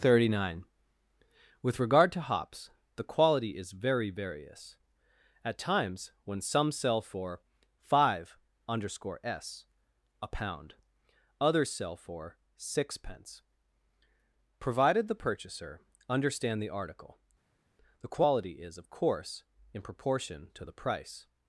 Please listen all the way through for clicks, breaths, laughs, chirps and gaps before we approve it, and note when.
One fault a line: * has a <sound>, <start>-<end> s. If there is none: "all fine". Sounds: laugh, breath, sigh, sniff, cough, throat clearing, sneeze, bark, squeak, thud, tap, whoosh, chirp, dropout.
all fine